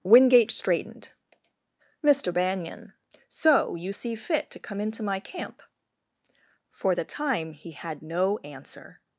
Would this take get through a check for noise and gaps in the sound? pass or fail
pass